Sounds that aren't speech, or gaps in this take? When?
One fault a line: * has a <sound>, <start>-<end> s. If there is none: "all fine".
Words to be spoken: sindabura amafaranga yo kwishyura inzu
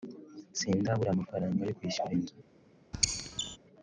* has a squeak, 2.9-3.6 s